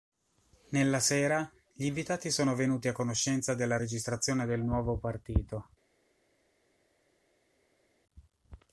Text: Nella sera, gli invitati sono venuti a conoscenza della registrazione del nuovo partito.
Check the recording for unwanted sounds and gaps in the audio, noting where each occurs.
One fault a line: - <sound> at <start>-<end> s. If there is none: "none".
none